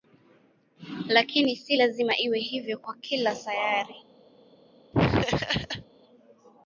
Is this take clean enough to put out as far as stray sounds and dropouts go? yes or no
no